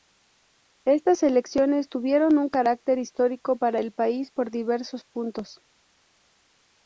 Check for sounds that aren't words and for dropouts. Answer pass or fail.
pass